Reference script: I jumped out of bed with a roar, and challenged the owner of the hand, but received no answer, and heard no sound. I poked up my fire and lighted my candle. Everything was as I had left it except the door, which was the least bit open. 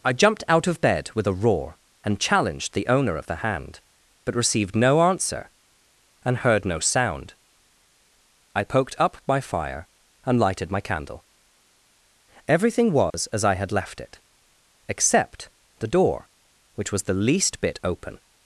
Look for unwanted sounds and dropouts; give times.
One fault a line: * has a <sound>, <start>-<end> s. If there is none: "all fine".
* has a dropout, 13.1-13.1 s